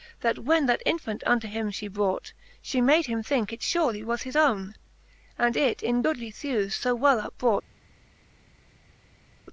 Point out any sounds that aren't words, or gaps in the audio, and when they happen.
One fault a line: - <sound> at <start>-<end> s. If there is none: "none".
none